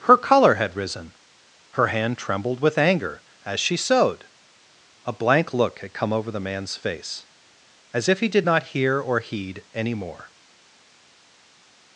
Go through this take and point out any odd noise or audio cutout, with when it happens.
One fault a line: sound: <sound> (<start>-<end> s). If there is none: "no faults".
no faults